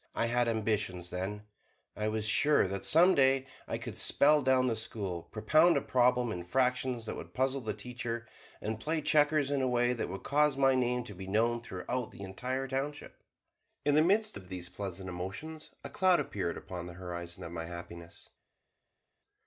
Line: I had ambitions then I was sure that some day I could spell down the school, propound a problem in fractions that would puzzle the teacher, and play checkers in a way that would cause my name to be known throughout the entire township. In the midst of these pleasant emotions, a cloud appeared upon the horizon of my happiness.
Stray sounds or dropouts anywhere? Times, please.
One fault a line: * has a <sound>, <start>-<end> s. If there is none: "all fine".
all fine